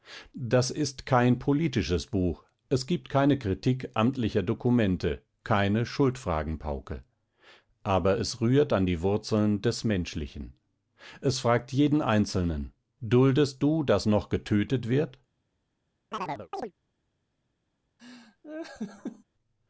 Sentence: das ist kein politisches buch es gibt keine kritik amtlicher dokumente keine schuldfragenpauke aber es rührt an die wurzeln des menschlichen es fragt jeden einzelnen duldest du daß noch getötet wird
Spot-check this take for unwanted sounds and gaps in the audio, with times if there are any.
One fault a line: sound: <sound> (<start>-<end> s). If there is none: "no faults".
sound: chirp (16.1-16.7 s)
sound: laugh (18.0-19.2 s)